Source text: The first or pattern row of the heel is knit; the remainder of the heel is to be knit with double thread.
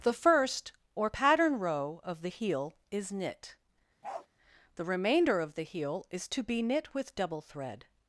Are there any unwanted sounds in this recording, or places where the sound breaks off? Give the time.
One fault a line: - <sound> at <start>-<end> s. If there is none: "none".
- bark at 4.0-4.3 s